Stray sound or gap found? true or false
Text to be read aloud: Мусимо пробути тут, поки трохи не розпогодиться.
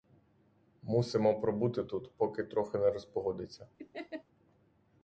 true